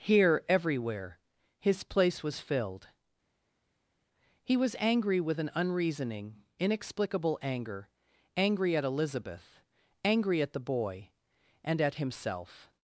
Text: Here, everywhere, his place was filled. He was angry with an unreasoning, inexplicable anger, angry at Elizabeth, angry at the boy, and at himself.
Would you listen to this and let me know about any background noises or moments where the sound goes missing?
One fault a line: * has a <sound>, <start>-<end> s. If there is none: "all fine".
all fine